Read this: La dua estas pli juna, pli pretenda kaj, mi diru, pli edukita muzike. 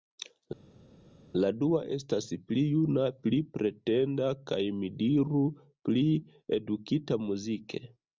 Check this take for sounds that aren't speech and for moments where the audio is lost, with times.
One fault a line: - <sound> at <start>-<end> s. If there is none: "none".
none